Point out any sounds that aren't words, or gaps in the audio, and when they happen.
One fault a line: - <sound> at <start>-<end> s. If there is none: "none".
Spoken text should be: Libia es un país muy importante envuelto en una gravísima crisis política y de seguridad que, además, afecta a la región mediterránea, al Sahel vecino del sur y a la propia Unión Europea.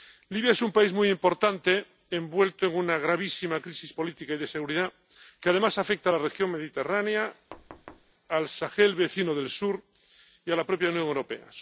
- thud at 7.5-8.1 s